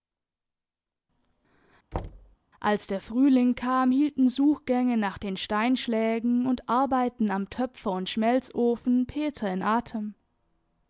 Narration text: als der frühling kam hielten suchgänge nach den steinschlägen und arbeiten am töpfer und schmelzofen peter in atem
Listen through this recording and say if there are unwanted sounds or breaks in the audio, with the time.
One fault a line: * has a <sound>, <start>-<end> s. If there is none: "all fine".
* has a thud, 1.9-2.4 s